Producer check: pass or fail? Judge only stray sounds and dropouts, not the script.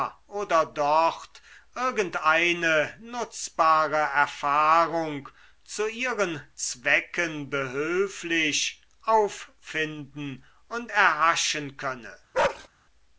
fail